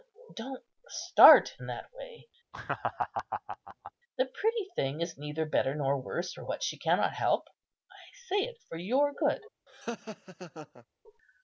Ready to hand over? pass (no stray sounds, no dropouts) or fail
fail